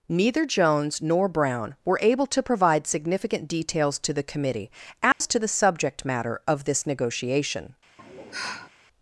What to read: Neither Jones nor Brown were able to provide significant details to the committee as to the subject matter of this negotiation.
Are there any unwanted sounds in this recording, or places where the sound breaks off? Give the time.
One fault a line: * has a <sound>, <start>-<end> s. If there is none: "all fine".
* has a dropout, 5.1-5.2 s
* has a sigh, 8.0-8.7 s